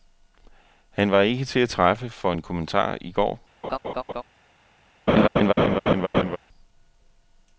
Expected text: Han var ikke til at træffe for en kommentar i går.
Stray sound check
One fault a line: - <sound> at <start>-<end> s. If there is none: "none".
- laugh at 3.6-4.2 s
- laugh at 5.1-6.4 s